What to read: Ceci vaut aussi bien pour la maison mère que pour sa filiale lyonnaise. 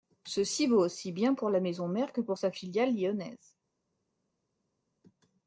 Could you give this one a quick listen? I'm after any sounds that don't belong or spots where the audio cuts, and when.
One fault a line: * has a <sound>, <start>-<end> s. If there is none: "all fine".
all fine